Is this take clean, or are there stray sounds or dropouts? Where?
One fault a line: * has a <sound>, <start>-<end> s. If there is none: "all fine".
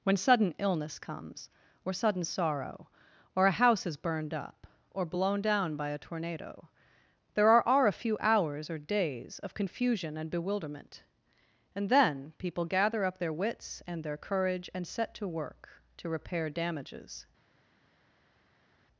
all fine